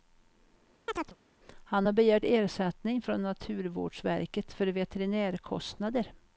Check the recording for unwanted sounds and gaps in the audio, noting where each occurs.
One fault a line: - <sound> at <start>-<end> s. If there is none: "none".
- chirp at 0.9-1.2 s